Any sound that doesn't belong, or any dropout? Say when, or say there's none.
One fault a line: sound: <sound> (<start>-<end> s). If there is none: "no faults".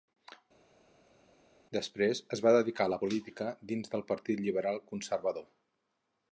no faults